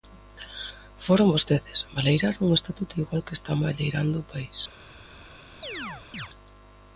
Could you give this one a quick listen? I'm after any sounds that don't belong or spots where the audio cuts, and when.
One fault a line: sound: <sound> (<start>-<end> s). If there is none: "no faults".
sound: chirp (5.6-6.3 s)